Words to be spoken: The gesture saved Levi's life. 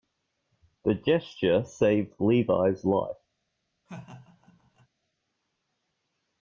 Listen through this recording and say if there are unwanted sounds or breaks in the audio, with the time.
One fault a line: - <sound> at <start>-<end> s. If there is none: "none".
- laugh at 3.9-4.9 s